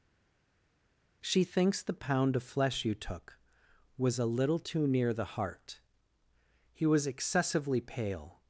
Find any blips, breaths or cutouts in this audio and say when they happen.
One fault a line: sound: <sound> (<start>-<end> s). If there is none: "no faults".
no faults